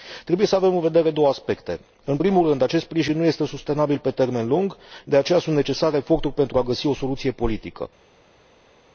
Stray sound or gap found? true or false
false